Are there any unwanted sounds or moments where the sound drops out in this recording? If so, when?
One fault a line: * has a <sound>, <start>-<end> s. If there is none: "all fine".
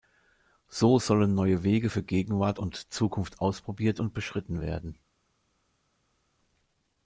all fine